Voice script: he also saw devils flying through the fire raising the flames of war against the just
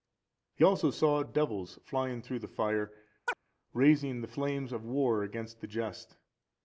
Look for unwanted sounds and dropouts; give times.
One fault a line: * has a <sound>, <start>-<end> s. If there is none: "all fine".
* has a chirp, 3.3-3.4 s